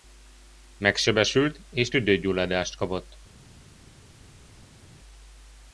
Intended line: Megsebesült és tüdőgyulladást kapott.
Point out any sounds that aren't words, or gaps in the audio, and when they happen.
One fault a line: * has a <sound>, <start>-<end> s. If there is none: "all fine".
all fine